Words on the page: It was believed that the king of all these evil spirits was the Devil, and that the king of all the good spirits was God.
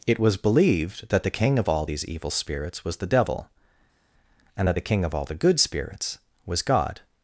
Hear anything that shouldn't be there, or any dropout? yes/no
no